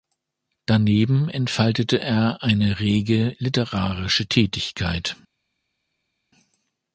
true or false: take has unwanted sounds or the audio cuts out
false